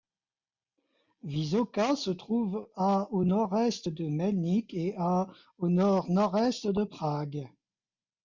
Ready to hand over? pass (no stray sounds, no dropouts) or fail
pass